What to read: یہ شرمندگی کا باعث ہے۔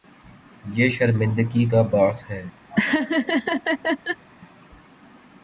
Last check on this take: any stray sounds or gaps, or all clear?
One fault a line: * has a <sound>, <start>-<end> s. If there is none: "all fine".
* has a laugh, 2.7-4.2 s